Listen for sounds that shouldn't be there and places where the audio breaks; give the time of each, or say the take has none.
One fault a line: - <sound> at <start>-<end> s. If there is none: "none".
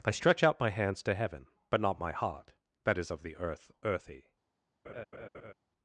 - laugh at 4.8-5.5 s